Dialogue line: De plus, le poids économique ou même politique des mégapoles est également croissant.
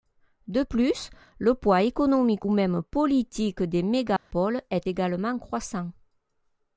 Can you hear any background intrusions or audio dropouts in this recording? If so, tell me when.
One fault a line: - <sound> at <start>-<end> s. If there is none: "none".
- dropout at 4.2-4.3 s